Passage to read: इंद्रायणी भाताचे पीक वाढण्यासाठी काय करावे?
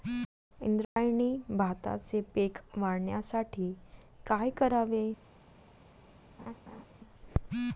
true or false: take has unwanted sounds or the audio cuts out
true